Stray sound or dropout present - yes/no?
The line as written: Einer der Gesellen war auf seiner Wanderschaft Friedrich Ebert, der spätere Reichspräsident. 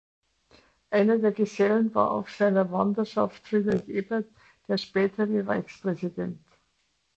no